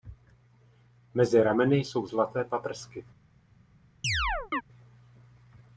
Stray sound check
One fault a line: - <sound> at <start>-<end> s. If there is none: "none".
- chirp at 4.0-4.6 s